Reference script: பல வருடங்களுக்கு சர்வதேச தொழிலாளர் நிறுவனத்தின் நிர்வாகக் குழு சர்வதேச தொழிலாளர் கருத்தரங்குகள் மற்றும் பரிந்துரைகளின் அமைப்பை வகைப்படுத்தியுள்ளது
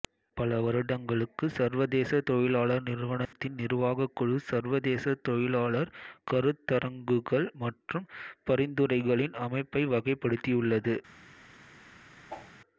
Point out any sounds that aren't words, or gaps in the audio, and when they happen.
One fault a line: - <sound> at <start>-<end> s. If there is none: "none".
- dropout at 3.3-3.3 s
- whoosh at 12.3-12.6 s